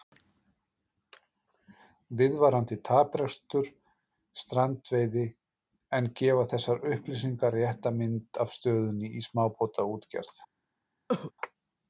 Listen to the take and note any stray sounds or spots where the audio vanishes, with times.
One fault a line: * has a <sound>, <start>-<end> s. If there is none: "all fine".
* has a cough, 11.1-11.3 s